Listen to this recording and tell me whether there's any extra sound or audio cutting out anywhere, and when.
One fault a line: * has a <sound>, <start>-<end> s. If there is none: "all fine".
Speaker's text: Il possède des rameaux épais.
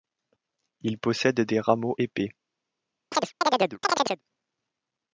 * has a chirp, 3.1-4.2 s